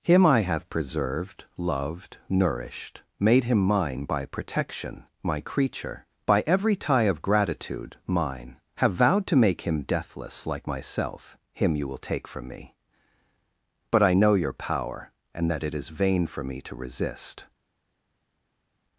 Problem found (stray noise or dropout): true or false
false